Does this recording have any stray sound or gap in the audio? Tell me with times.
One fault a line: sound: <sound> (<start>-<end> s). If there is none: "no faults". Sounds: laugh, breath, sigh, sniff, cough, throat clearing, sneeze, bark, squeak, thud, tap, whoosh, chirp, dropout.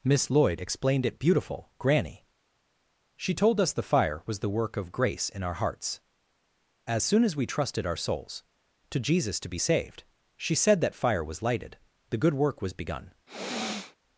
sound: sniff (13.3-14.0 s)